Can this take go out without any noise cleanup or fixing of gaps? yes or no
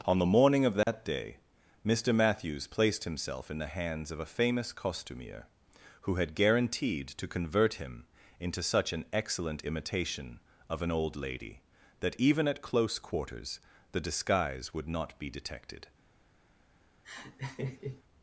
no